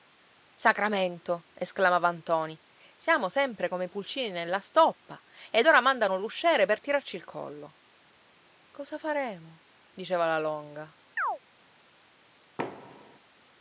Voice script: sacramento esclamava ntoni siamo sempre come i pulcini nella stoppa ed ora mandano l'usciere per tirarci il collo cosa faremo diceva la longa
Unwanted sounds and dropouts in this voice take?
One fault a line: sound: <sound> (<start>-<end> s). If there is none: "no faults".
sound: chirp (11.2-11.4 s)
sound: thud (12.6-13.2 s)